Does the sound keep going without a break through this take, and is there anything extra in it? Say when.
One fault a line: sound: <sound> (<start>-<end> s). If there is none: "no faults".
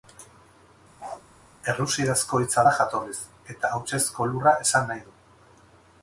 sound: bark (1.0-1.2 s)